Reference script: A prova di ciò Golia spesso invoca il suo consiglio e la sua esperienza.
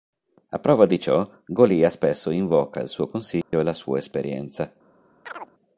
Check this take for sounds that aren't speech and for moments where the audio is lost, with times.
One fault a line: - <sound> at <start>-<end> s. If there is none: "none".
- dropout at 3.4-3.5 s
- chirp at 5.3-5.5 s